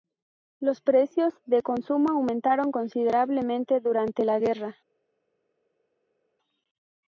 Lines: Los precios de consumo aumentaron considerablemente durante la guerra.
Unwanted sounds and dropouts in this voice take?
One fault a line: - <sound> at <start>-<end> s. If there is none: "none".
none